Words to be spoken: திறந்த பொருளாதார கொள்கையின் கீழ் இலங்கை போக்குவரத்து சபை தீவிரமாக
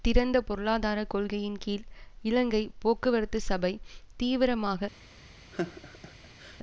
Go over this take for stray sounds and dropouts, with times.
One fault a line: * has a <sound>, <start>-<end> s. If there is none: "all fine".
* has a laugh, 5.5-6.6 s